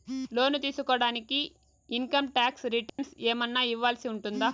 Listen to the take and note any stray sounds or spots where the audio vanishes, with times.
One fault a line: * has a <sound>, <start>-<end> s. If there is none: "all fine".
* has a dropout, 2.9-3.0 s